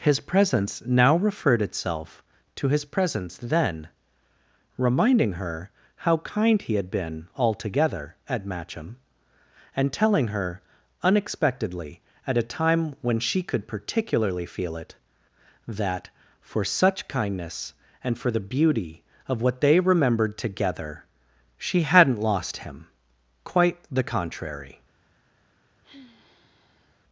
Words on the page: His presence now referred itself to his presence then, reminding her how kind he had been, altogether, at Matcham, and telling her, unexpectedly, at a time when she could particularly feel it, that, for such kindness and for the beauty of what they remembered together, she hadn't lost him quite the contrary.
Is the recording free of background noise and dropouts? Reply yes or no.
no